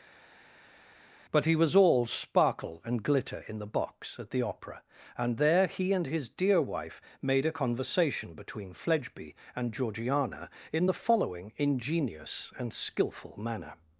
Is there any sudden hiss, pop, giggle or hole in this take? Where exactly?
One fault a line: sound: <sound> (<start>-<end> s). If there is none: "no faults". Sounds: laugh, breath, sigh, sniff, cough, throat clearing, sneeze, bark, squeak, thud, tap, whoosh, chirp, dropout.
no faults